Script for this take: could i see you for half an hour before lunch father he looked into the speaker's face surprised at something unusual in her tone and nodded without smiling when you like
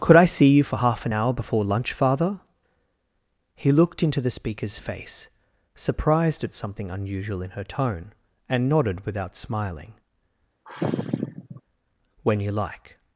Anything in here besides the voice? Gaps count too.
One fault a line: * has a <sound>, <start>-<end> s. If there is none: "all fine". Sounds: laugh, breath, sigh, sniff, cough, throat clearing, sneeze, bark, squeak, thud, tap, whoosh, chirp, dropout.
* has a sigh, 10.7-11.6 s